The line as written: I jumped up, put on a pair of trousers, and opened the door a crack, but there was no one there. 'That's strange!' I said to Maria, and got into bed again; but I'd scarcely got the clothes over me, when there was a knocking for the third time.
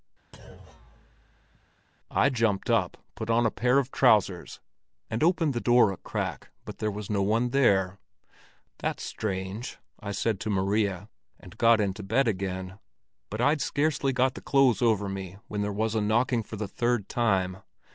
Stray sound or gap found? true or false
true